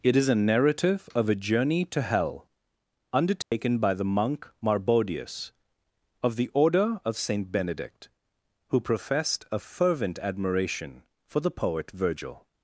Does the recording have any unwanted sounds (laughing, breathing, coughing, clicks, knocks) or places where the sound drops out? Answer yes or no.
yes